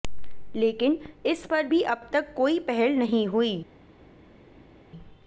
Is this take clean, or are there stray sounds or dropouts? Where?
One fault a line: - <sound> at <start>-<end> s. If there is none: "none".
none